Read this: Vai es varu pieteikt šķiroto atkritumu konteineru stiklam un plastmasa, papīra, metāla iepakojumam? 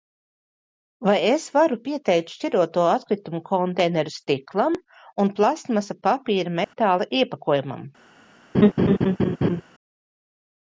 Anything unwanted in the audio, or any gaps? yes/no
yes